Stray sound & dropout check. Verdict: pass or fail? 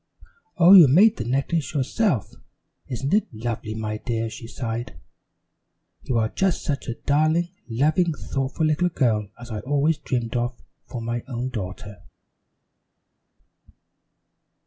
pass